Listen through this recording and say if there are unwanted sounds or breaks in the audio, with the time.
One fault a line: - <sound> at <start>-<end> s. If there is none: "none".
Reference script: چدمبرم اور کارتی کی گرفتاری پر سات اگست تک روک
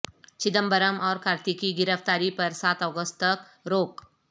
none